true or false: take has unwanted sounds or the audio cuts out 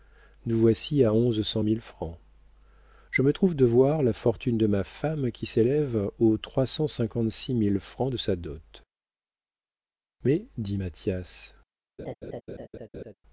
true